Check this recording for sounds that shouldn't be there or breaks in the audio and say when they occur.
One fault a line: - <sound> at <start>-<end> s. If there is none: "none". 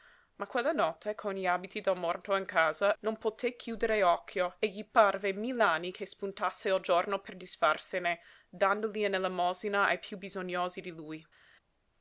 none